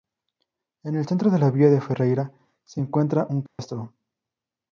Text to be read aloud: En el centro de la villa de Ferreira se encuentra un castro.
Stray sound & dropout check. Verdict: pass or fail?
fail